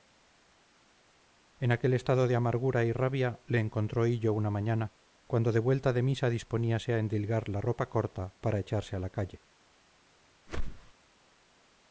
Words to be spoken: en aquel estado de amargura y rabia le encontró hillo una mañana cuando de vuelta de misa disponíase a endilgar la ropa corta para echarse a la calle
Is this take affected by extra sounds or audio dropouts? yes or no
yes